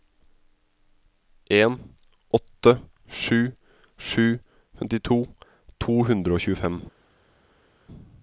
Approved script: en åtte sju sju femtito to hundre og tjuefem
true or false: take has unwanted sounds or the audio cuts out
false